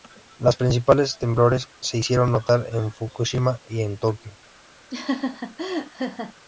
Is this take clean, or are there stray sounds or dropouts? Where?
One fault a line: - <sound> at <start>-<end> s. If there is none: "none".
- laugh at 4.9-6.3 s